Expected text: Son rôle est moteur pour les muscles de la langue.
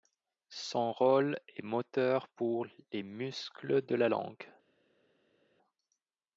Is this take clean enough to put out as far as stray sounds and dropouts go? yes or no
yes